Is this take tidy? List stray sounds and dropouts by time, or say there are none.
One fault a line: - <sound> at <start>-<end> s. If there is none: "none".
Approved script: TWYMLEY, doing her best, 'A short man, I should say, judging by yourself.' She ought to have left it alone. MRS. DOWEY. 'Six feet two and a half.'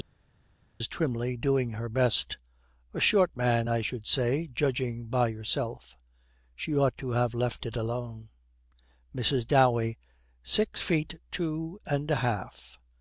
none